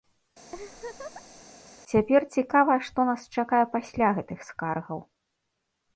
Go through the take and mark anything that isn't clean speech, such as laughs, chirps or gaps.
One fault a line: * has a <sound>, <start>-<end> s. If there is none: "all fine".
* has a laugh, 0.5-1.4 s